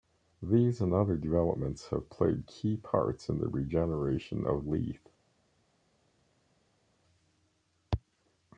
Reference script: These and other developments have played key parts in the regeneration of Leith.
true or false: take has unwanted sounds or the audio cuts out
false